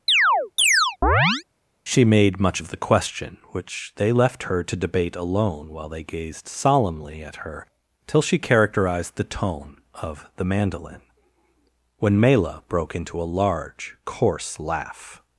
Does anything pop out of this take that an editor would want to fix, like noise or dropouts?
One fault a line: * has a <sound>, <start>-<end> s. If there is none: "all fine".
* has a chirp, 0.1-1.4 s